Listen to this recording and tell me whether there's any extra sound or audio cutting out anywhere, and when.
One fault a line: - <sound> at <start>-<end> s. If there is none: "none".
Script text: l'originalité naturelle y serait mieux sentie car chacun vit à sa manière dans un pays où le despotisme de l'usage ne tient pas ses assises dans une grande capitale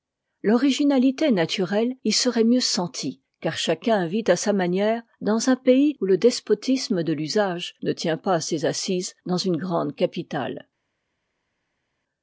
none